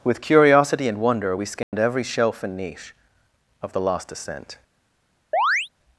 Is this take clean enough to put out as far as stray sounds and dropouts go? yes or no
no